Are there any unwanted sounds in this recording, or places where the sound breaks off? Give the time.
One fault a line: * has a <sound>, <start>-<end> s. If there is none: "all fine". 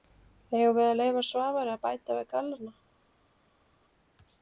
all fine